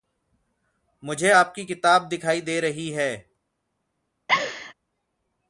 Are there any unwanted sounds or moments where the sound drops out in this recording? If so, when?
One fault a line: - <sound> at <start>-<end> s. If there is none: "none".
- laugh at 4.3-4.7 s